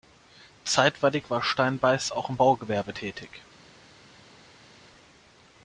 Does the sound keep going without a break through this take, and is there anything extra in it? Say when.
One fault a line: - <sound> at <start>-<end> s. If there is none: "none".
none